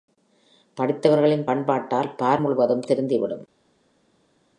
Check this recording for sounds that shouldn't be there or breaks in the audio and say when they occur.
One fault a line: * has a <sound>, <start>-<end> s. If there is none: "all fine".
all fine